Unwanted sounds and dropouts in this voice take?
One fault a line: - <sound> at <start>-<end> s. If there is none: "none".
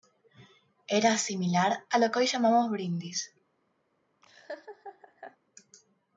- laugh at 4.2-5.4 s